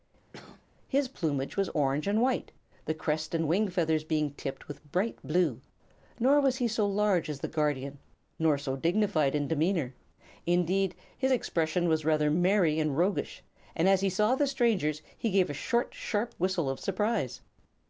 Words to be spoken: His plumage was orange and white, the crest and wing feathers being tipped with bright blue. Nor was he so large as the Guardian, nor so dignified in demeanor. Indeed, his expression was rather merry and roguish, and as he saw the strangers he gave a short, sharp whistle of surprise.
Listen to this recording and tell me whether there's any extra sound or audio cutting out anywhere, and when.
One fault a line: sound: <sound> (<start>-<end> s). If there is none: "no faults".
sound: cough (0.3-0.6 s)